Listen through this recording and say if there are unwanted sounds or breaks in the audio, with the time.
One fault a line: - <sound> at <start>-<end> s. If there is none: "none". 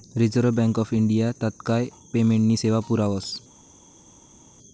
none